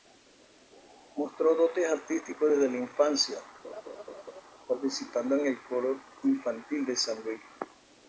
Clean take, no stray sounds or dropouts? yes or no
no